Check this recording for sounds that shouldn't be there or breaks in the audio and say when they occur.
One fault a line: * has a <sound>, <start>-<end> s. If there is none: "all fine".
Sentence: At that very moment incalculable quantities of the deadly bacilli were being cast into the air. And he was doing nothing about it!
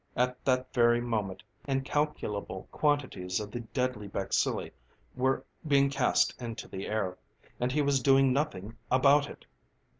all fine